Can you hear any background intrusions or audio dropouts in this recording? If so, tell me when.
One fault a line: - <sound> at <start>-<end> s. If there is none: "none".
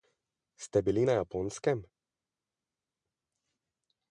none